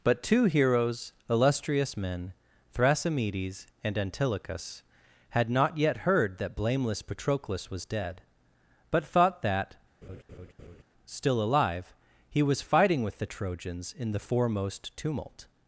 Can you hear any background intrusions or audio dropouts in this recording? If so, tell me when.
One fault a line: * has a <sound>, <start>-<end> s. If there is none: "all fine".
* has a laugh, 10.0-10.8 s